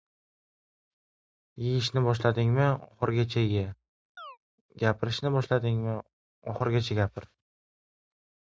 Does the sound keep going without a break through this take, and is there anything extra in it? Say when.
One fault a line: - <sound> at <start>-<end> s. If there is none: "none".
- chirp at 4.2-4.4 s